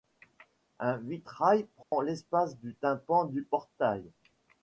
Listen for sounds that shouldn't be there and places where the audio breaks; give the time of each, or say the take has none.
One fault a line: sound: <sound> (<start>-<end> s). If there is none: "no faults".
sound: dropout (1.8-1.9 s)